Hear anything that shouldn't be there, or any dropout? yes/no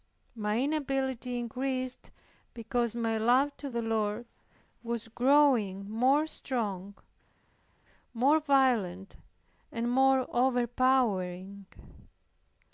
no